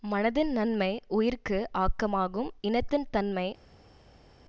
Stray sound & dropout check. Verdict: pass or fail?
pass